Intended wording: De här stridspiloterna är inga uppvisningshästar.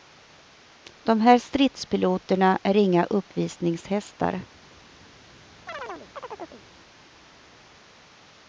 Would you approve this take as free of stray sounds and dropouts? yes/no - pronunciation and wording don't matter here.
no